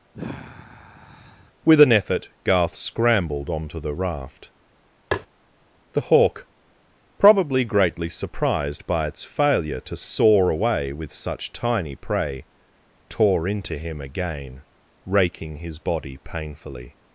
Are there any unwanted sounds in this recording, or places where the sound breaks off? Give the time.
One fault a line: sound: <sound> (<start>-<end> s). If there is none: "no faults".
sound: sigh (0.1-1.5 s)
sound: tap (5.1-5.3 s)